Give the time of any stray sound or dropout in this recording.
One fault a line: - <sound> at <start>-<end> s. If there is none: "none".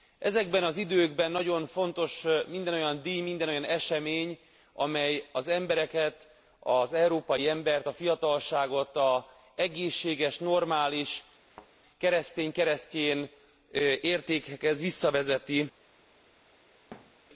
- thud at 11.5-11.7 s
- thud at 16.9-17.2 s